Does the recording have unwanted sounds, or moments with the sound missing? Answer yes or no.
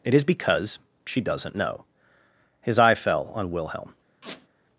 yes